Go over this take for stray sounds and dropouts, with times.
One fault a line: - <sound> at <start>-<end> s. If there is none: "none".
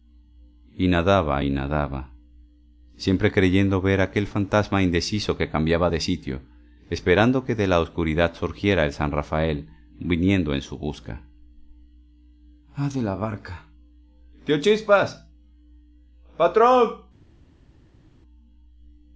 none